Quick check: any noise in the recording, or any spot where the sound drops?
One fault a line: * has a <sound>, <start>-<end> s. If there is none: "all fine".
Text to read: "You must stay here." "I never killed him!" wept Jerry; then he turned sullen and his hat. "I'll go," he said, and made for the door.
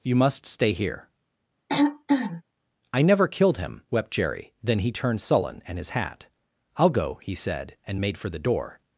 * has a throat clearing, 1.7-2.4 s